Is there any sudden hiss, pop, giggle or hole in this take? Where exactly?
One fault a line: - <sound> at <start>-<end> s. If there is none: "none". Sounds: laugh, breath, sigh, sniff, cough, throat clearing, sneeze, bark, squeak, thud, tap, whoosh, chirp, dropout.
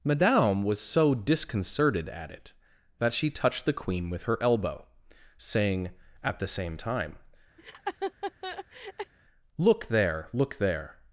- laugh at 7.6-9.1 s